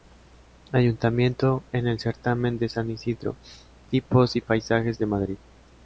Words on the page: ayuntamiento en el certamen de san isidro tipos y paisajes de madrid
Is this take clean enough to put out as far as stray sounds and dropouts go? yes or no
yes